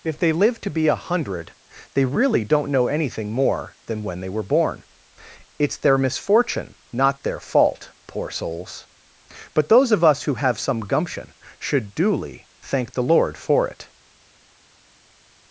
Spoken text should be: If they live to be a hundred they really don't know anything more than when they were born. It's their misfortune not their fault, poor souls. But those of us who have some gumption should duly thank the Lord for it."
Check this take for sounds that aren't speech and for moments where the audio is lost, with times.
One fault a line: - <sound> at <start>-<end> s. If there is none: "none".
none